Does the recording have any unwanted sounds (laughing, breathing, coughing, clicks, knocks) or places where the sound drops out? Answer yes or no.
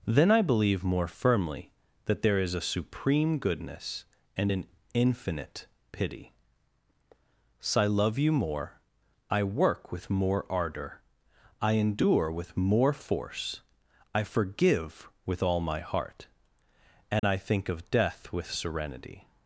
yes